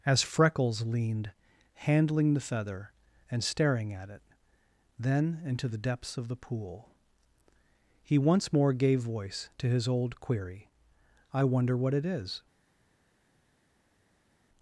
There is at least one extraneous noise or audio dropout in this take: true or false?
false